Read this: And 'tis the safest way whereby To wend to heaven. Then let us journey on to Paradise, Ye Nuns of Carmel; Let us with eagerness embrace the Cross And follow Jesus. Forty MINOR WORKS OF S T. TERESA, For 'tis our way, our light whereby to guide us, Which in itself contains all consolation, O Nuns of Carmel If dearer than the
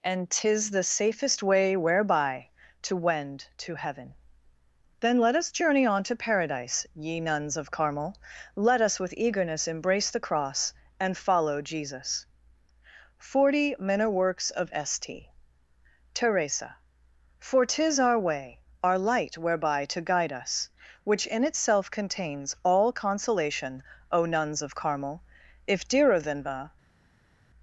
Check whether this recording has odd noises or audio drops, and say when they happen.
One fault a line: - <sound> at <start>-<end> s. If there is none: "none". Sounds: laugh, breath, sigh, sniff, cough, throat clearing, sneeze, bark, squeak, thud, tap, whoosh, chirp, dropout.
none